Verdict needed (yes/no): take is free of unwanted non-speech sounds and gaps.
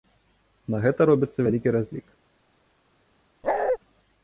no